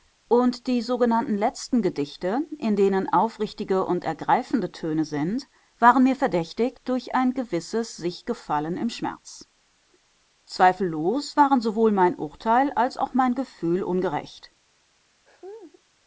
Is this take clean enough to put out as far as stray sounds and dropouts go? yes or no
no